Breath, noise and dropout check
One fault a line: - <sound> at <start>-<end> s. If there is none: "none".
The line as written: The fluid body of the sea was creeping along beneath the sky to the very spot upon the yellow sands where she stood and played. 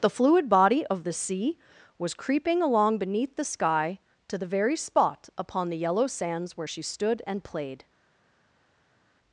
none